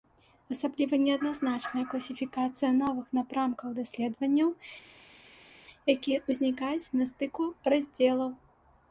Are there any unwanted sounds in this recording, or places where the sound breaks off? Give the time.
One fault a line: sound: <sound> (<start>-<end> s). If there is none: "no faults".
no faults